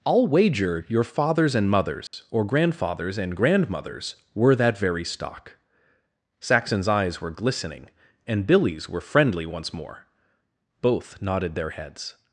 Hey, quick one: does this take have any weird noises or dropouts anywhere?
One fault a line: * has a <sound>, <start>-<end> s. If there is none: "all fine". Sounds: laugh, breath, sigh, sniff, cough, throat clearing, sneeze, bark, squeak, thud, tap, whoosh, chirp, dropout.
* has a dropout, 2.1-2.1 s